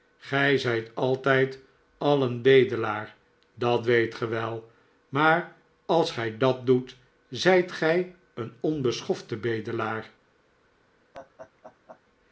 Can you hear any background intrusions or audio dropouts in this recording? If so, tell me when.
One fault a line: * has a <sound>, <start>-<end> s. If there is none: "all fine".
* has a laugh, 11.1-12.0 s